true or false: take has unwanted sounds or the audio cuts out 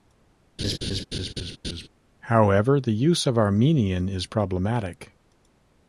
true